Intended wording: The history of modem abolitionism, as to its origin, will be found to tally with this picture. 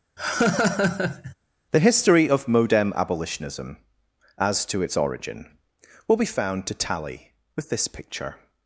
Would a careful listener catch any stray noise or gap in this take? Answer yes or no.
yes